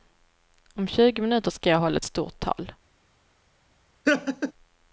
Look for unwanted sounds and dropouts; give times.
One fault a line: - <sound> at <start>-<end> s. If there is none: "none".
- laugh at 4.1-4.5 s